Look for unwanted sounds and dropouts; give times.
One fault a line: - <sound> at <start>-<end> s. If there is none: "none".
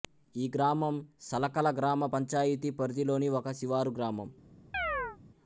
- chirp at 4.7-5.2 s